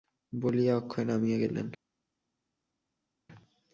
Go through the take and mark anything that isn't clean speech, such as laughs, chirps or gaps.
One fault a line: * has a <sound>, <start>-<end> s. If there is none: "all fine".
all fine